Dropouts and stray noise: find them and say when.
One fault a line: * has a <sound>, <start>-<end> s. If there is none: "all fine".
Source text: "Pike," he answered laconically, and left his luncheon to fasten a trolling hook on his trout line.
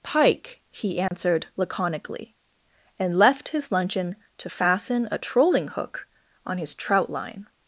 * has a dropout, 1.1-1.1 s